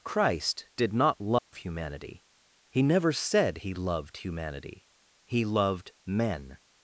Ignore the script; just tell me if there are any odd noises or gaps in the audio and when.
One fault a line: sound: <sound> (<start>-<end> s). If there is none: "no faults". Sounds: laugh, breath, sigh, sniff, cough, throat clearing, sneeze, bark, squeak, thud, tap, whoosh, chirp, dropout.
sound: dropout (1.4-1.5 s)